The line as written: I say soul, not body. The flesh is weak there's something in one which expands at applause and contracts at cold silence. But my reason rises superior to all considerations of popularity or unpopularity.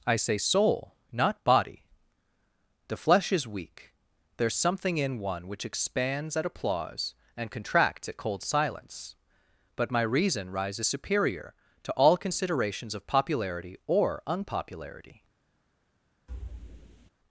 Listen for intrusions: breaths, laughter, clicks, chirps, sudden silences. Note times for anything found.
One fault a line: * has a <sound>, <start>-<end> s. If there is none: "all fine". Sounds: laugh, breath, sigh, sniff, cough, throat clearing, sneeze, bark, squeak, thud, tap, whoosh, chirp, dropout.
* has a thud, 16.3-17.1 s